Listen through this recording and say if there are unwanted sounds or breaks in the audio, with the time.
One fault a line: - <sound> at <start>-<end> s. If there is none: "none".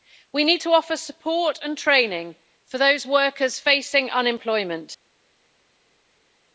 none